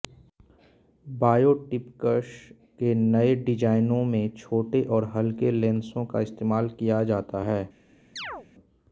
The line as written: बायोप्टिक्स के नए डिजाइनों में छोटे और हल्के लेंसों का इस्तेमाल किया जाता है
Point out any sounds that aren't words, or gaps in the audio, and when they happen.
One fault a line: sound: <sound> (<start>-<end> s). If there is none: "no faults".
sound: chirp (8.2-8.5 s)